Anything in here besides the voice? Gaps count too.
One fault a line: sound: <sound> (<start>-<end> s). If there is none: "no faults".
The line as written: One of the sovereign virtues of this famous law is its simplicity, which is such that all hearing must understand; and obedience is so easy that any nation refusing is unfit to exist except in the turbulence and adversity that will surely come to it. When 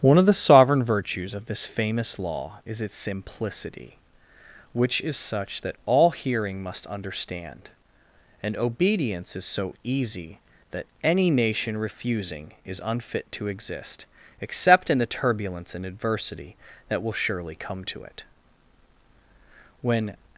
no faults